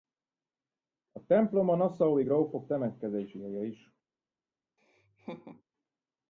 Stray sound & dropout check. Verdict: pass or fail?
fail